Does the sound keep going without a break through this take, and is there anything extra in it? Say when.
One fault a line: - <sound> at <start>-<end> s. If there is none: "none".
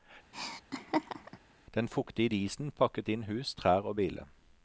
- laugh at 0.3-1.4 s